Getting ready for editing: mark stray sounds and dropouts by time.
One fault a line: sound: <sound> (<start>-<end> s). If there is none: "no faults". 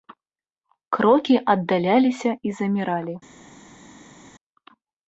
no faults